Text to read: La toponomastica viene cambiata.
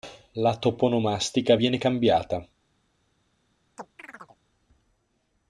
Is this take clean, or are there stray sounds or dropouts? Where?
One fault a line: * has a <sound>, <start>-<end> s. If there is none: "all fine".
* has a chirp, 3.8-4.4 s